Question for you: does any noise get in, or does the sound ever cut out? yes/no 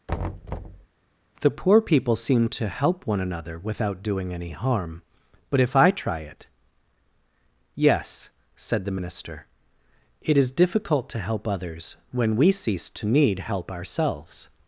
yes